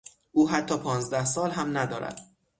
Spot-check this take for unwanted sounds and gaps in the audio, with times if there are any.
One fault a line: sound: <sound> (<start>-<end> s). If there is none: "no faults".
no faults